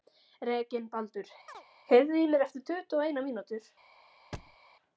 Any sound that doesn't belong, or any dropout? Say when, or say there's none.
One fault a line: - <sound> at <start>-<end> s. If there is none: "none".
- chirp at 1.5-1.6 s
- thud at 4.3-4.6 s